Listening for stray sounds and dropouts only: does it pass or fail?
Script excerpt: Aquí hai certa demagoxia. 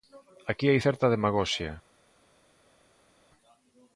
pass